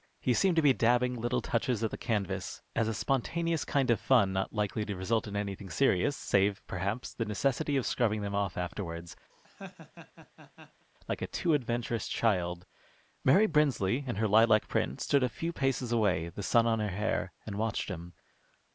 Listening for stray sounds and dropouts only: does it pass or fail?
fail